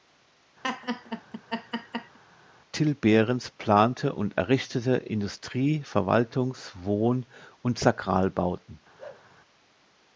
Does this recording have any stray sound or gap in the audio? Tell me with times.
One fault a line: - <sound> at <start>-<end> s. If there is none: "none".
- laugh at 0.6-2.2 s
- bark at 9.0-9.3 s